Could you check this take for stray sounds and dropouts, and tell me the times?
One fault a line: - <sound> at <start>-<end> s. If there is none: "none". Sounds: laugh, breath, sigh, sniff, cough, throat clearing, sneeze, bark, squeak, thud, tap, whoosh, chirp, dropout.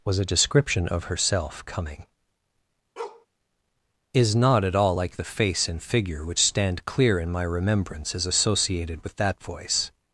- bark at 3.0-3.3 s